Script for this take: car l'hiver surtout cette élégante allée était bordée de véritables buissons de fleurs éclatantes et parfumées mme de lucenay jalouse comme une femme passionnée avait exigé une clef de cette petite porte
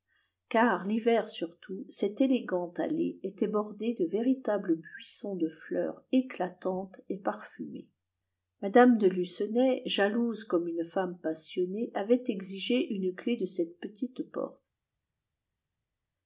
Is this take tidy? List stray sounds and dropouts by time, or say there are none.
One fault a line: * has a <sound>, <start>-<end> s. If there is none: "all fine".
all fine